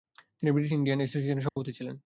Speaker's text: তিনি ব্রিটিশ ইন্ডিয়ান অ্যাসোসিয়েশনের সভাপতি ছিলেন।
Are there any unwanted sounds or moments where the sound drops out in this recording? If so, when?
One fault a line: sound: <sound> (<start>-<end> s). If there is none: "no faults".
sound: dropout (1.5-1.6 s)